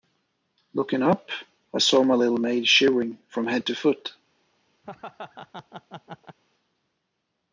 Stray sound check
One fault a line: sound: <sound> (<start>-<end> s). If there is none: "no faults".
sound: laugh (4.8-6.4 s)